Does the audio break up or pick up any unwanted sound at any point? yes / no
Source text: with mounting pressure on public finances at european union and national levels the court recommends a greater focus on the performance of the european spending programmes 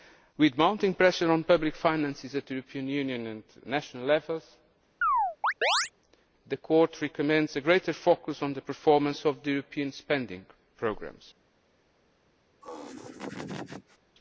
yes